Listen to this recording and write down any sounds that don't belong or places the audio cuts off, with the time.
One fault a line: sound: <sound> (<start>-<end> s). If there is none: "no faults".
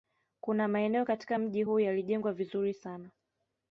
no faults